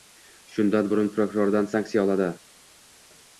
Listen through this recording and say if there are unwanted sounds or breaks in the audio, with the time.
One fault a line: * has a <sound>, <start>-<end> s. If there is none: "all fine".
all fine